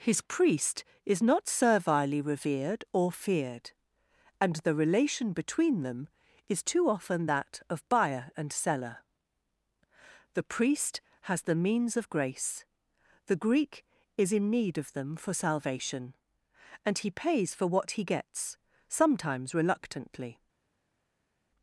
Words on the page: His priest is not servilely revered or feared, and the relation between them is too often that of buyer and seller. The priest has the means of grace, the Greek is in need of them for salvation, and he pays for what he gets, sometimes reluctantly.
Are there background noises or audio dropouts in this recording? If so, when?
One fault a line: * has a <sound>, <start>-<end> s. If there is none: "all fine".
all fine